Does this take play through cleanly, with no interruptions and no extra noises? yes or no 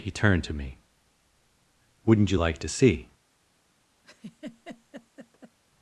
no